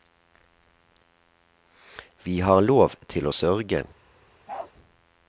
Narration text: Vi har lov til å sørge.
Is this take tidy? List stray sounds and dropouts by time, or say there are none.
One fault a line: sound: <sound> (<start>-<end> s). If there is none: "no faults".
sound: bark (4.5-4.7 s)